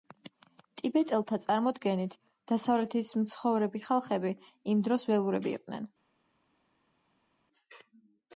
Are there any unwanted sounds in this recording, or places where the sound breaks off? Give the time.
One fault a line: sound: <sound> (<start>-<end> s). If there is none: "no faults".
no faults